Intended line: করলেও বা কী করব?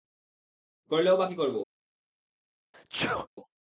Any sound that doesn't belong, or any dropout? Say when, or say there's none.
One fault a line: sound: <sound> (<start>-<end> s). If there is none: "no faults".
sound: sneeze (2.7-3.3 s)